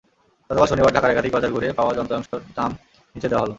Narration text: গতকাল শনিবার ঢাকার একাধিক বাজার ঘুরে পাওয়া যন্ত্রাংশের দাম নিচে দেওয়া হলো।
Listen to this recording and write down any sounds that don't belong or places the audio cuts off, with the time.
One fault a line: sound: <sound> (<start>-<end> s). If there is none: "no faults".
sound: dropout (2.3-2.3 s)